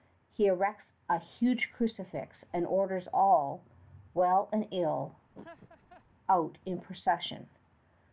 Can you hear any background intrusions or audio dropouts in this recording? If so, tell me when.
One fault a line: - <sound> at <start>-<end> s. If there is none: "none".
- laugh at 5.3-6.1 s